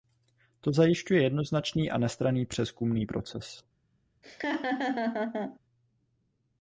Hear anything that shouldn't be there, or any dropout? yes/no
yes